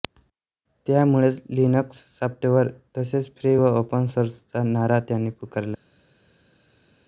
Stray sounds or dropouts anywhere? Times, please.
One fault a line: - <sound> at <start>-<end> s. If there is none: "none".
none